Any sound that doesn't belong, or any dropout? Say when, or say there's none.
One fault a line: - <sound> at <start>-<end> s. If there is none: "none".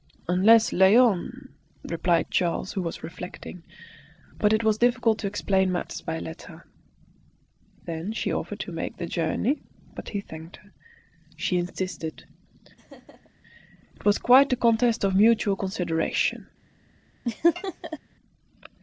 - laugh at 12.8-13.3 s
- laugh at 17.2-18.0 s